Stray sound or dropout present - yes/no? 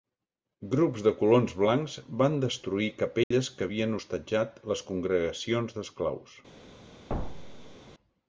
yes